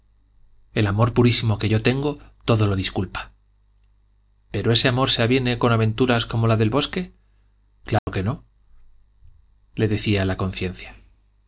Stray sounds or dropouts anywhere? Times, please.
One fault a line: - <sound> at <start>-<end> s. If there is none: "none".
- dropout at 8.0-8.1 s